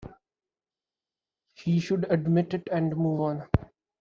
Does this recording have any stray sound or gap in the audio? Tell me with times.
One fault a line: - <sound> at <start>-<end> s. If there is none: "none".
none